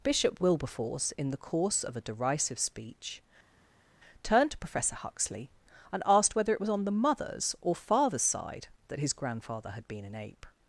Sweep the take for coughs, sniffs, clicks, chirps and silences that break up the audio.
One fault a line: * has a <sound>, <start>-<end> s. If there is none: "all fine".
all fine